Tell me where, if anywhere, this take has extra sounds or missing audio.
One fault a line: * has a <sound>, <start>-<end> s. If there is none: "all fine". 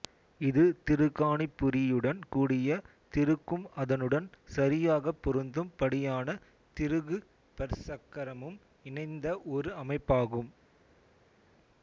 all fine